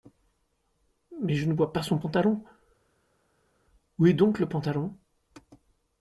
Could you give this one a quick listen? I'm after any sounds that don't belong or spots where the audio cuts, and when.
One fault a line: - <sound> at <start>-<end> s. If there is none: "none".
none